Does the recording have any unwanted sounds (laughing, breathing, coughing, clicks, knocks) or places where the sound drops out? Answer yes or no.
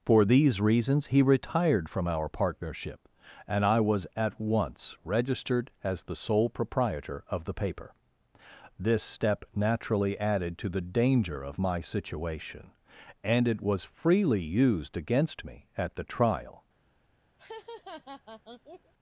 yes